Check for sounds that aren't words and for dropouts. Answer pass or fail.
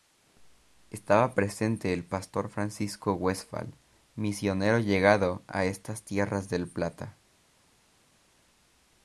pass